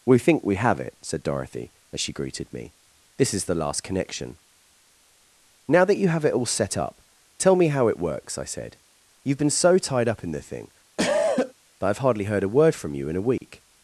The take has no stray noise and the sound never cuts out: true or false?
false